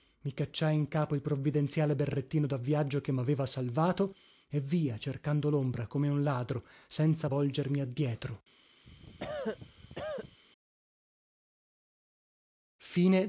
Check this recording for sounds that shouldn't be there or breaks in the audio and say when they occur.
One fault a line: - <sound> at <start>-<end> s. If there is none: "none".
- cough at 8.8-10.4 s